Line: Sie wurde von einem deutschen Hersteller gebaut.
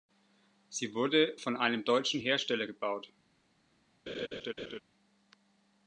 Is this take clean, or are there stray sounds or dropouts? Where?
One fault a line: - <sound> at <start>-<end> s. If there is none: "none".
- laugh at 4.1-4.8 s